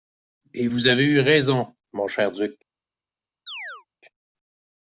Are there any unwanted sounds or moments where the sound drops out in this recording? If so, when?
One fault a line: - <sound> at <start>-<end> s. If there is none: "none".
- chirp at 3.5-3.9 s